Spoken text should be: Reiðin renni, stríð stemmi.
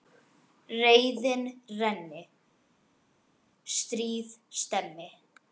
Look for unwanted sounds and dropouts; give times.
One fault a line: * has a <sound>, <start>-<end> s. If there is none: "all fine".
all fine